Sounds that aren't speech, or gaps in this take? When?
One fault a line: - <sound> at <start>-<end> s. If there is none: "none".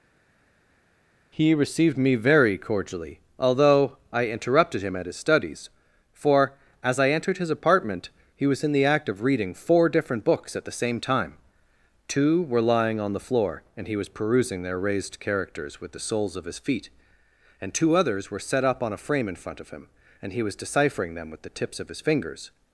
none